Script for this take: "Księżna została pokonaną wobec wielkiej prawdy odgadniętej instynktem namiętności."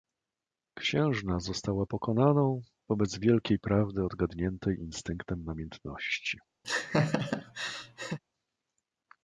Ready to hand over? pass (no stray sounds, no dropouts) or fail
fail